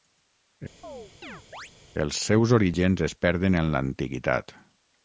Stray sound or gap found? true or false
true